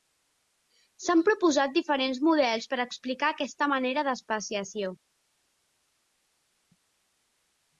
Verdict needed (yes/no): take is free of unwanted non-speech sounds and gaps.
yes